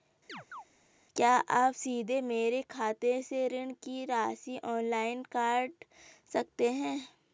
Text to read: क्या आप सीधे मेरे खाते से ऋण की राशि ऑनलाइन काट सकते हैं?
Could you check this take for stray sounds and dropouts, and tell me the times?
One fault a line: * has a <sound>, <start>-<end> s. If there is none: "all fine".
* has a chirp, 0.3-0.6 s